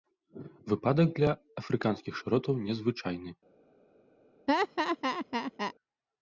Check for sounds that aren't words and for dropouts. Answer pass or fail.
fail